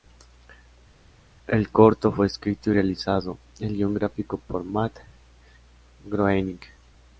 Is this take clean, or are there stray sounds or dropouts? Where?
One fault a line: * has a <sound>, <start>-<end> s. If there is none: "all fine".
all fine